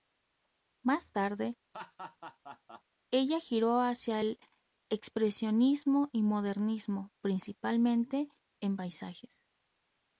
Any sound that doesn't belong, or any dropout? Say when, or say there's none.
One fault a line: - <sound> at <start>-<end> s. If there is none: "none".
- laugh at 1.7-2.8 s